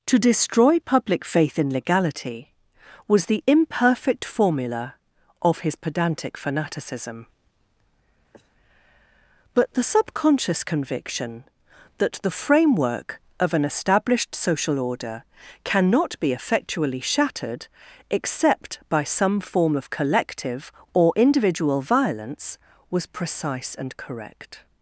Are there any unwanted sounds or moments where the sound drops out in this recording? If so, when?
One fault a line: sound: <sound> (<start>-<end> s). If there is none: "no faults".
sound: sniff (8.3-8.5 s)